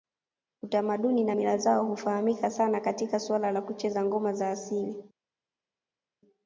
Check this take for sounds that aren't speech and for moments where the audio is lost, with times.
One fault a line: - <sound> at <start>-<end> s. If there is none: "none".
none